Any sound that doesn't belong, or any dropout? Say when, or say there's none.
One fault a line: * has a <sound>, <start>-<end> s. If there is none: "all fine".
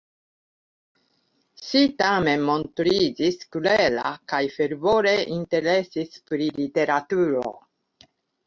all fine